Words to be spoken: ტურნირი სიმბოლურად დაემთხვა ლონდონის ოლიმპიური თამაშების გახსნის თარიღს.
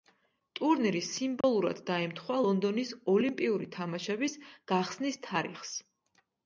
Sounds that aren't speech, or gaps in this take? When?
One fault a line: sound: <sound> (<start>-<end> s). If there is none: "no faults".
sound: dropout (1.4-1.4 s)